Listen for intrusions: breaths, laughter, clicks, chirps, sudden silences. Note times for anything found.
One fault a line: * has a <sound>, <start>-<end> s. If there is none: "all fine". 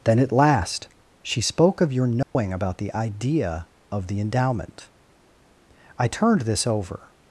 * has a dropout, 2.2-2.4 s